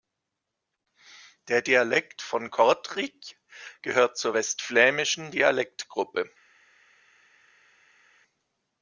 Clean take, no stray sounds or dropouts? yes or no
yes